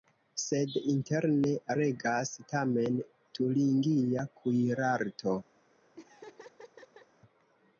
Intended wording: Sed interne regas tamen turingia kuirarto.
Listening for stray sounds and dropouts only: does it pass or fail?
fail